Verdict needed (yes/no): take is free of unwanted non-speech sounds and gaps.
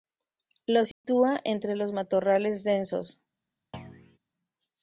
no